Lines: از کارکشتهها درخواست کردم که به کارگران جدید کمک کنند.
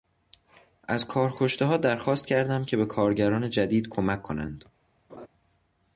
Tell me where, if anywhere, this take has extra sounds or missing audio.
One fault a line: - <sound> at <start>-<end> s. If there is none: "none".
- laugh at 5.1-5.3 s